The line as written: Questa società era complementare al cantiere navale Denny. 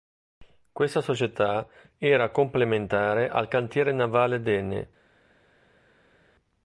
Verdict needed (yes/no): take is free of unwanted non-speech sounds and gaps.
yes